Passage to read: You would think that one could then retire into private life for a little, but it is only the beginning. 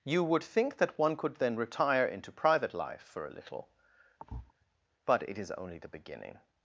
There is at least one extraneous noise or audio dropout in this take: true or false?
true